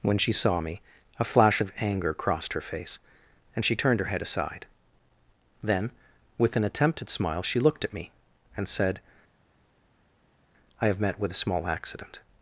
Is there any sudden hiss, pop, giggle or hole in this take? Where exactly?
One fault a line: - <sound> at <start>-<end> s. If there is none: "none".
none